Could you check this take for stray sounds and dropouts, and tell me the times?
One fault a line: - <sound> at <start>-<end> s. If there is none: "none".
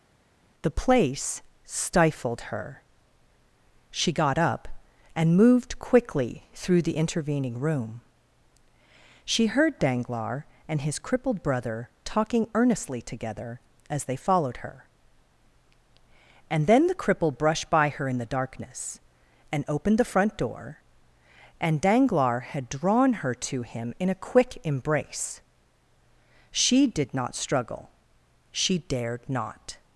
none